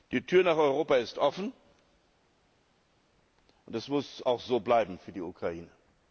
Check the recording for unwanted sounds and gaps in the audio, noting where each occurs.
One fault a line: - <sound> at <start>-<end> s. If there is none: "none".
none